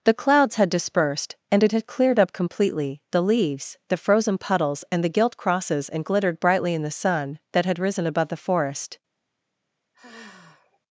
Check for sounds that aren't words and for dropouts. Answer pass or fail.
fail